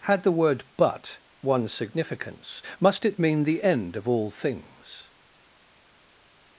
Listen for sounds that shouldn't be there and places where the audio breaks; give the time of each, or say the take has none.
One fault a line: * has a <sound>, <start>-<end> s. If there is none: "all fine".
all fine